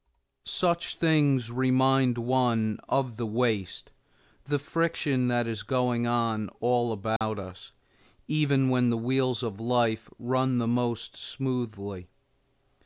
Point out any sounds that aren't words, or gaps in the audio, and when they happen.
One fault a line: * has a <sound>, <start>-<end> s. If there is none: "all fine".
* has a dropout, 7.2-7.2 s